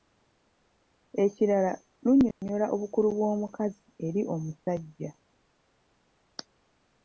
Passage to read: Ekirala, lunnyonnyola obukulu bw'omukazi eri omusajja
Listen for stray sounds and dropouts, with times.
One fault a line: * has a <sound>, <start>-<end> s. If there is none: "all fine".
* has a dropout, 2.3-2.4 s